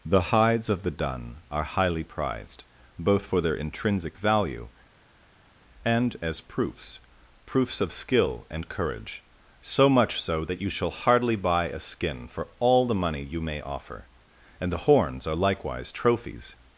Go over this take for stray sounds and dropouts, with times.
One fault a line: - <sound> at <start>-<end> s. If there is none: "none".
none